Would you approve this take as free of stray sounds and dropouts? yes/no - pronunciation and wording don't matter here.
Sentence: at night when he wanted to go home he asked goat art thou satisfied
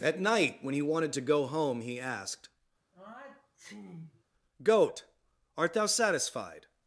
no